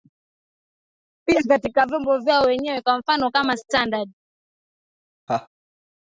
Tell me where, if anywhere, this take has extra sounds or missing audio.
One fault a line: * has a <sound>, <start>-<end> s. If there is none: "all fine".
* has a laugh, 5.3-5.5 s